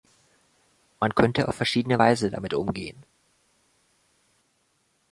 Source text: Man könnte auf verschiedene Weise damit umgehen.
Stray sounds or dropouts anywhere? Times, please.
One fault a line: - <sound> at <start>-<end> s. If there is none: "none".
none